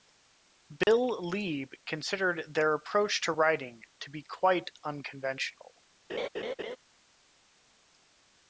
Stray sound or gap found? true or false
true